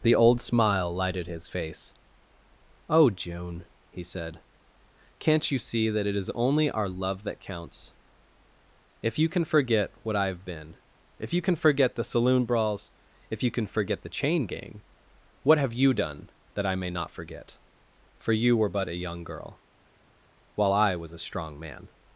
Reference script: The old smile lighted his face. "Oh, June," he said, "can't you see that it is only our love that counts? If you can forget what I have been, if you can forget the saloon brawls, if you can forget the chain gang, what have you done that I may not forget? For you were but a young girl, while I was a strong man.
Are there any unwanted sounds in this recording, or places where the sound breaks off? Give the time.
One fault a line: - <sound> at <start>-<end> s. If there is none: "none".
none